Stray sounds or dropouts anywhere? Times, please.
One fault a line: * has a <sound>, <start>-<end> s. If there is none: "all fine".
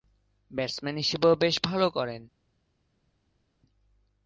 all fine